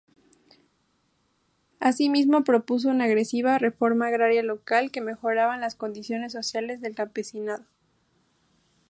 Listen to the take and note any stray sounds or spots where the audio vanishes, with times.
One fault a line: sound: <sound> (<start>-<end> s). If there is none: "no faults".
no faults